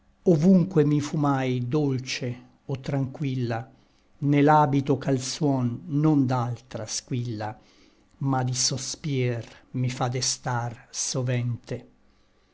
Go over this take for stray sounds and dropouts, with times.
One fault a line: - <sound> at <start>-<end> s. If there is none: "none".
none